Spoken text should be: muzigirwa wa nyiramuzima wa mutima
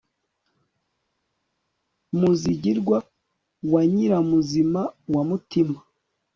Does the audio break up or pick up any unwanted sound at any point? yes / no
no